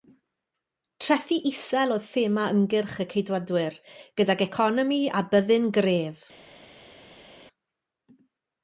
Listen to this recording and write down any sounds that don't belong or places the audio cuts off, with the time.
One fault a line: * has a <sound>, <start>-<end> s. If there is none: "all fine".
all fine